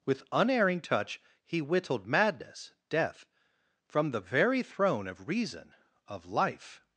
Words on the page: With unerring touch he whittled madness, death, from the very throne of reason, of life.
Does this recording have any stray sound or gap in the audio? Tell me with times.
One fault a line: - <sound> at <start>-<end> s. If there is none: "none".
none